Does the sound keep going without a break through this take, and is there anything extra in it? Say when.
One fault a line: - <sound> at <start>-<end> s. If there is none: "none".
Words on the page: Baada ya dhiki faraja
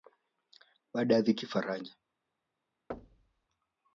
- thud at 2.9-3.5 s